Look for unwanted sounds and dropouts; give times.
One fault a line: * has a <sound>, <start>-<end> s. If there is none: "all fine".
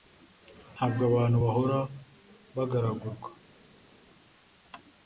all fine